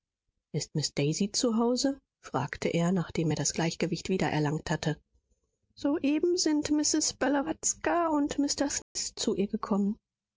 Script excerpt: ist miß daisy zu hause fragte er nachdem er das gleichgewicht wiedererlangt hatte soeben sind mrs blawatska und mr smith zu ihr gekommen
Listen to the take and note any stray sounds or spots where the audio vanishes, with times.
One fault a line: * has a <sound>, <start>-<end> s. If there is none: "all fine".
* has a dropout, 8.8-9.0 s